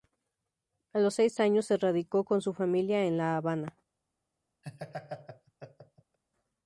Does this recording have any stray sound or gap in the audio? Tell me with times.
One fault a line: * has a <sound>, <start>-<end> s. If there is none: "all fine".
* has a laugh, 4.6-6.2 s